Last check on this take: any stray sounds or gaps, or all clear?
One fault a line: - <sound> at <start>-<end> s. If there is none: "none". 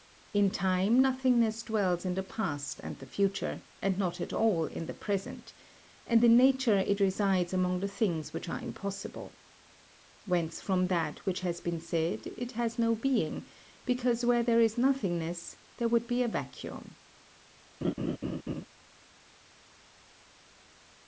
- laugh at 17.8-18.7 s